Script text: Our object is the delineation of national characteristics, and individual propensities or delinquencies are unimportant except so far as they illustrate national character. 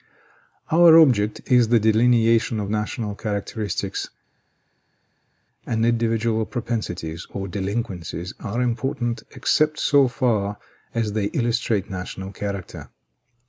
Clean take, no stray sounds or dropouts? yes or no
yes